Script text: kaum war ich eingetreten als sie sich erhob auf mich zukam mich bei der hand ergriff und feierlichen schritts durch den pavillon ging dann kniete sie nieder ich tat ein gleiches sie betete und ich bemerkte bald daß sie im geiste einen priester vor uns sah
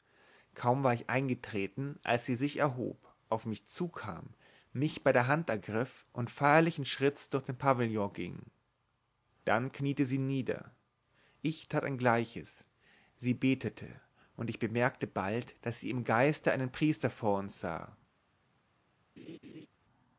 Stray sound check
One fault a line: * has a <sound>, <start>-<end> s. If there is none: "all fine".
* has a laugh, 19.2-19.7 s